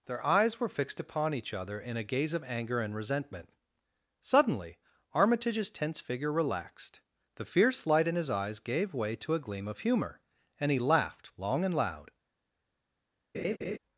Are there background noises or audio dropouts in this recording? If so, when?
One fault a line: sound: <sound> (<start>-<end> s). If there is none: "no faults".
sound: laugh (13.3-13.8 s)